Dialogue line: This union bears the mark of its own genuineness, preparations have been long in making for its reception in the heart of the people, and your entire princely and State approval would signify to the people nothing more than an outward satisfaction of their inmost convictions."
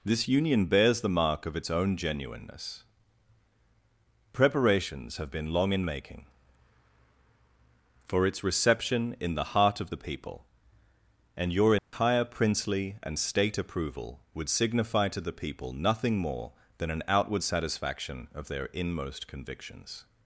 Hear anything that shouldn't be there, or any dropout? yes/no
yes